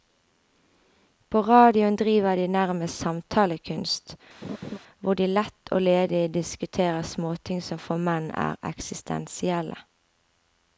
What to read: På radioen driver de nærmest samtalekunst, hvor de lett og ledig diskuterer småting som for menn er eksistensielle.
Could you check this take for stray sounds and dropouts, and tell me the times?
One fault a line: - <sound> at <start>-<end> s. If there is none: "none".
- laugh at 4.4-4.8 s